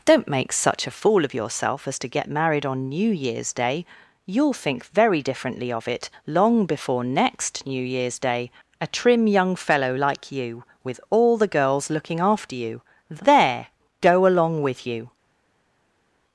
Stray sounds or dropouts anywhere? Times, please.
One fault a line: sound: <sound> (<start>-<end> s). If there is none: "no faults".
no faults